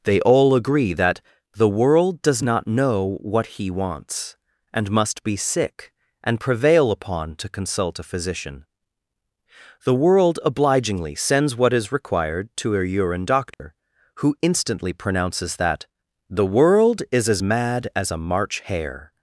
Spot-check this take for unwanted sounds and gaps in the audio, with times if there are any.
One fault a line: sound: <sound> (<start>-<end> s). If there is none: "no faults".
sound: dropout (13.5-13.6 s)